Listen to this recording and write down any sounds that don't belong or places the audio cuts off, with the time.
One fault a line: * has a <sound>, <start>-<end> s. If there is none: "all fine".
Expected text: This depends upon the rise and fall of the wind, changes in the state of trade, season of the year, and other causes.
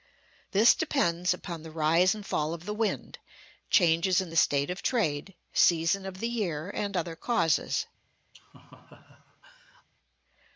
* has a laugh, 8.3-9.9 s